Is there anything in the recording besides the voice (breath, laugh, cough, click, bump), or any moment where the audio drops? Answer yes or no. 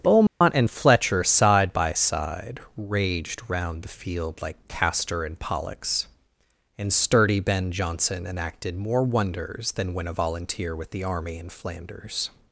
yes